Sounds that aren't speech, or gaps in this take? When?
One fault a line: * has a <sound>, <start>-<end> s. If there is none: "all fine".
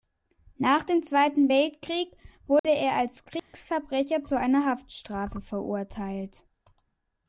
* has a dropout, 2.6-2.6 s
* has a dropout, 3.4-3.5 s